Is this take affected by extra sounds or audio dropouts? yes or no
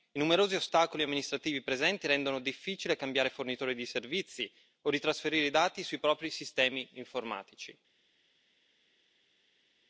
no